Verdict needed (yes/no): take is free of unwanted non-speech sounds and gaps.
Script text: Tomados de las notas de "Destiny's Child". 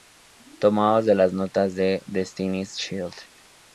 yes